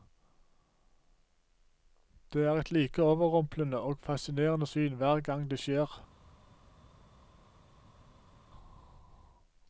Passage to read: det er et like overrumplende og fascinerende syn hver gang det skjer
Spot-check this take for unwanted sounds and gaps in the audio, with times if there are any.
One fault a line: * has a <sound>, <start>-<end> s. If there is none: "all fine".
all fine